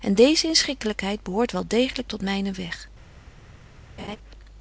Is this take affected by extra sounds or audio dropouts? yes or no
yes